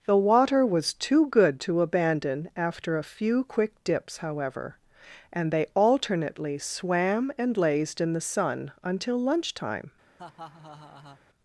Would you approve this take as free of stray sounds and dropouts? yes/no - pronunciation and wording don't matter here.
no